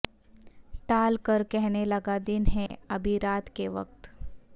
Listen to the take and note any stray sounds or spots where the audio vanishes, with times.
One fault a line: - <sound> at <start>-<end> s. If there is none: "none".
- dropout at 2.7-2.7 s